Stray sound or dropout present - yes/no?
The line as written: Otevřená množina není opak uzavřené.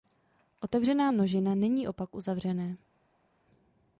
no